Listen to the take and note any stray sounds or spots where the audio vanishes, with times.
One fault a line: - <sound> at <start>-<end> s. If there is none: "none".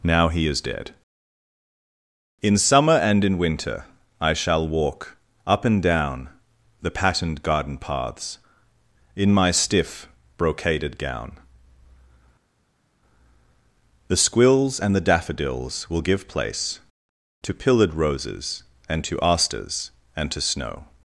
none